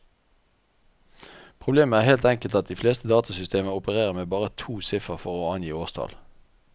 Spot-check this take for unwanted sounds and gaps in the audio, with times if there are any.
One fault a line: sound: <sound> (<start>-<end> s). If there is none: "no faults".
no faults